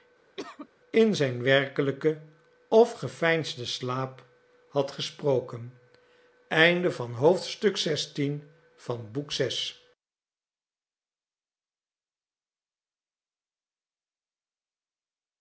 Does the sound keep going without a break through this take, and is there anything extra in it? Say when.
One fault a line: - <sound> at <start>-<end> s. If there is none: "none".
- cough at 0.4-0.7 s